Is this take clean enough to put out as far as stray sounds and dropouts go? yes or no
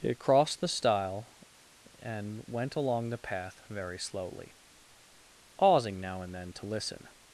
yes